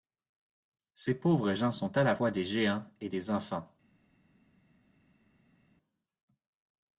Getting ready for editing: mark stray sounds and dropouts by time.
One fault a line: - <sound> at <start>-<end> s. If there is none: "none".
none